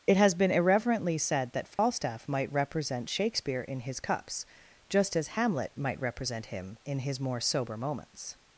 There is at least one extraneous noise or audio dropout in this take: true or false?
true